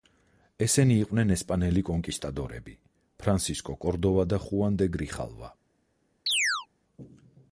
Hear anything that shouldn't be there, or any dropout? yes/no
yes